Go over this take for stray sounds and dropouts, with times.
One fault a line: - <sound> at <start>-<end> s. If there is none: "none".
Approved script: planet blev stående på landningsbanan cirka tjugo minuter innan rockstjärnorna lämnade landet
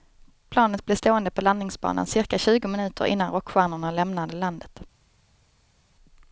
none